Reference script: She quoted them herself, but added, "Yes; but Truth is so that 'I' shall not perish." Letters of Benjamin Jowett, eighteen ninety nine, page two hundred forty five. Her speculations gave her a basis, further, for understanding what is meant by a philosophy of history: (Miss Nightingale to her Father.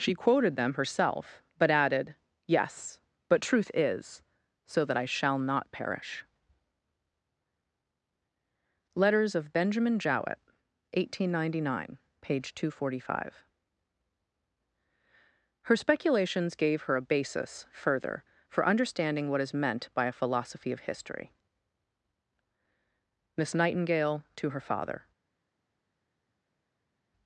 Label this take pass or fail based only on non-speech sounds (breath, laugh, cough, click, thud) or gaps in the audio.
pass